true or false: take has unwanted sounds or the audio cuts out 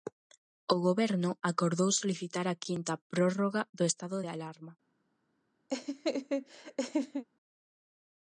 true